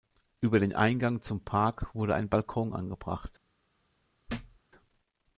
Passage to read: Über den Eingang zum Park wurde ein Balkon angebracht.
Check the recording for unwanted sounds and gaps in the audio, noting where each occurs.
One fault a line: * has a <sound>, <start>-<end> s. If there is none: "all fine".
* has a thud, 4.3-4.6 s